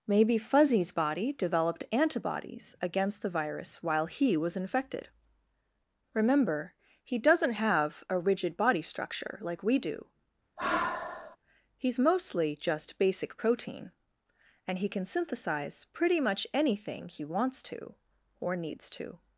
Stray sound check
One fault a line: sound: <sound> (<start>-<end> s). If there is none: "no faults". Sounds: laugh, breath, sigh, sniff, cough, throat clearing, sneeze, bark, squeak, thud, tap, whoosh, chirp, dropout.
sound: sigh (10.6-11.4 s)